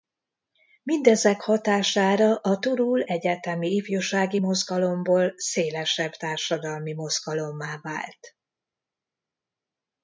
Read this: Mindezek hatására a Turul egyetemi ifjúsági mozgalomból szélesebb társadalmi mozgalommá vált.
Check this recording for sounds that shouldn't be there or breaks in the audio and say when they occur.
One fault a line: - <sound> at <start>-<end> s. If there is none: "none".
none